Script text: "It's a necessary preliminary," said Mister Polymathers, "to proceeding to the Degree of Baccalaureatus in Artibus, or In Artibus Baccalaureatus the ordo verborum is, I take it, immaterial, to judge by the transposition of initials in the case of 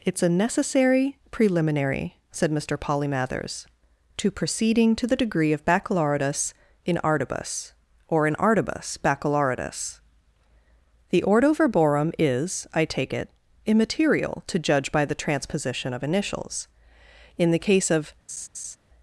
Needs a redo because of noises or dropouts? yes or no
yes